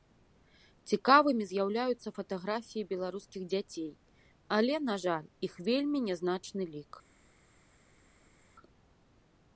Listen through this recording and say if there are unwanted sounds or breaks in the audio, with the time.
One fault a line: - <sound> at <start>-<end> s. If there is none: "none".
none